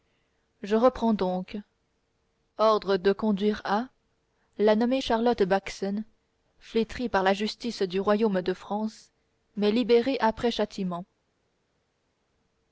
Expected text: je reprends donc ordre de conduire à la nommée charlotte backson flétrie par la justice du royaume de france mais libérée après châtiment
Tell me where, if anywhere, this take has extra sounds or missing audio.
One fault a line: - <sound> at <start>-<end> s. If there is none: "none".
none